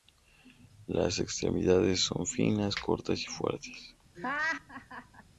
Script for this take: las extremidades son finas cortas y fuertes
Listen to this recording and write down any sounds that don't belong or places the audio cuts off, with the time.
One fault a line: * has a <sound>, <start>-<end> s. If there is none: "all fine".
* has a laugh, 4.1-5.2 s